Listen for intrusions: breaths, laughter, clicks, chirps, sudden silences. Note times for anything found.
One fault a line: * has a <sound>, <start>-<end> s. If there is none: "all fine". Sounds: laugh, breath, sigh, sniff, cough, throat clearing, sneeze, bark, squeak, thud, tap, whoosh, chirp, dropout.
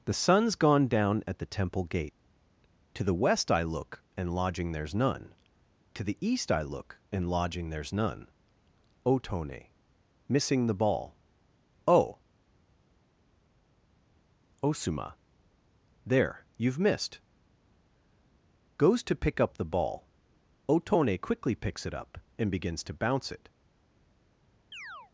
* has a chirp, 24.7-25.1 s